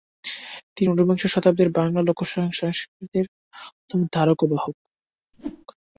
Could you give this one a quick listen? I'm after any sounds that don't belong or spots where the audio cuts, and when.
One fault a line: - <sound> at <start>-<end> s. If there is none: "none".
- whoosh at 5.3-5.7 s